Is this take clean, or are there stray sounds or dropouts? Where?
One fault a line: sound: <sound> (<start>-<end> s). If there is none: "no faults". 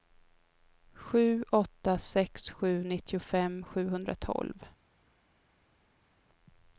no faults